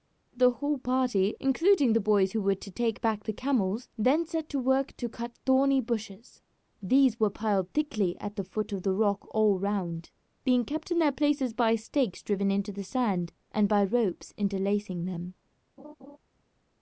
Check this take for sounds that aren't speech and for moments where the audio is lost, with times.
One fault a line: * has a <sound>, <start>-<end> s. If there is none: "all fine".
* has a laugh, 15.8-16.2 s